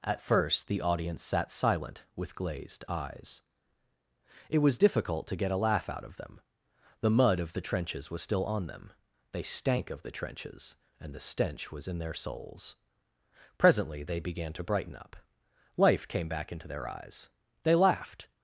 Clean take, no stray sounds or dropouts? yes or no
yes